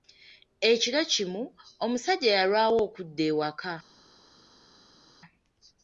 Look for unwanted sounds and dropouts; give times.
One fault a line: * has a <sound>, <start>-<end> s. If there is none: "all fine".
all fine